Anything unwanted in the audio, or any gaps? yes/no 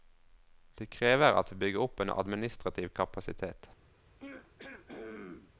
yes